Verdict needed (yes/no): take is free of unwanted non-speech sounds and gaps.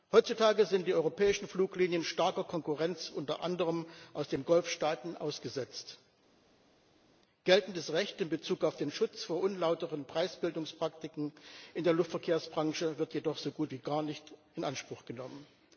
yes